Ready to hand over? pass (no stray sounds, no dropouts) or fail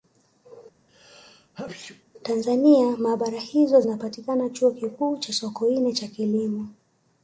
fail